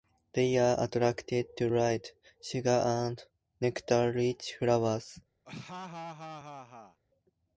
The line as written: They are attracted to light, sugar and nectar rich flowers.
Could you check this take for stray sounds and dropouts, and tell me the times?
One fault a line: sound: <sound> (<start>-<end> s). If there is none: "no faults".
sound: laugh (5.4-7.0 s)